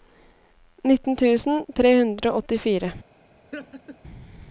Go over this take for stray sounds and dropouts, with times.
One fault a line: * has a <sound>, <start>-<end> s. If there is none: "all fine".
* has a laugh, 3.5-4.0 s